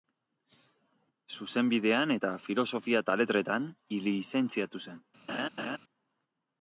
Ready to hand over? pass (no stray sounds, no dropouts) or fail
fail